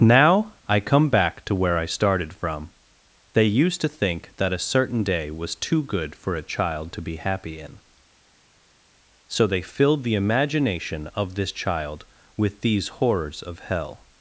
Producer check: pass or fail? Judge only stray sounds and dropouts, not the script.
pass